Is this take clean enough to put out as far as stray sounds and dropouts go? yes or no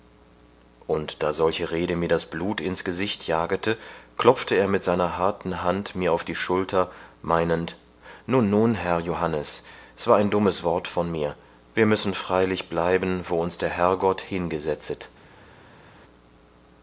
yes